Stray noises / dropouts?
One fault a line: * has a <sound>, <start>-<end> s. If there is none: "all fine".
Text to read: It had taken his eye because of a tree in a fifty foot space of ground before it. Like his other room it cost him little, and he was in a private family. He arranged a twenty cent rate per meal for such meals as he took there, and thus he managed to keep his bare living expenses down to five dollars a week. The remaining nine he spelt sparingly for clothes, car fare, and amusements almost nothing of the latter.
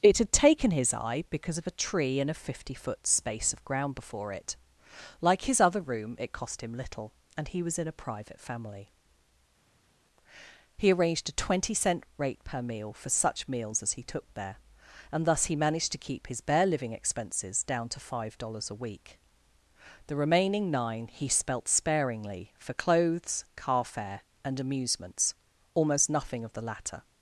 all fine